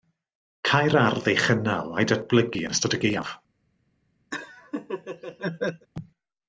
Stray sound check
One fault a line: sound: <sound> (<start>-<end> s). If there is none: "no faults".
sound: laugh (4.3-5.9 s)